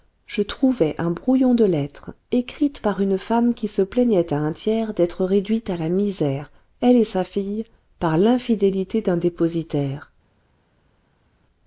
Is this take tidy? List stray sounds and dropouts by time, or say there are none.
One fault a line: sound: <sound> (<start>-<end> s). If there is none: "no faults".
no faults